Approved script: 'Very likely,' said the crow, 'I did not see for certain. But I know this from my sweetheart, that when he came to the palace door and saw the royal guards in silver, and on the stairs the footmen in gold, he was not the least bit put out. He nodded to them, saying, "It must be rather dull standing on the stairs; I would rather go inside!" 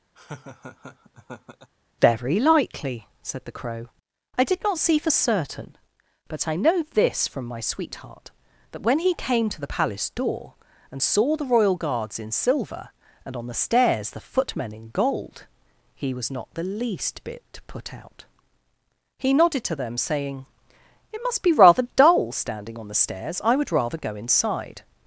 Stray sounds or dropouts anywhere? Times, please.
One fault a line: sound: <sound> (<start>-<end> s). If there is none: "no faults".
sound: laugh (0.2-1.7 s)